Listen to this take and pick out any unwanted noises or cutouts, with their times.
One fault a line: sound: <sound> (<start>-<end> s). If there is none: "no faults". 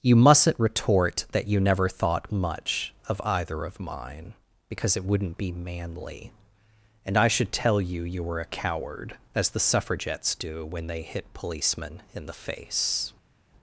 no faults